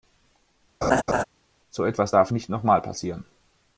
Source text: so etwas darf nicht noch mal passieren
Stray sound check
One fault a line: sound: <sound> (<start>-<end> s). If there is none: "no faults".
sound: laugh (0.8-1.2 s)